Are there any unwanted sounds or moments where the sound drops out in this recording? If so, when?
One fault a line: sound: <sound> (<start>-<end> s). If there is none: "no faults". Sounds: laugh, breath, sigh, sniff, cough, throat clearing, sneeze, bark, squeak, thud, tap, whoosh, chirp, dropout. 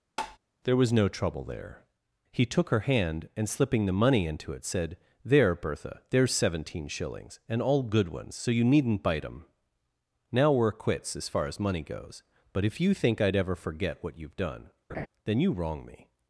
sound: tap (0.2-0.4 s)
sound: laugh (14.9-15.1 s)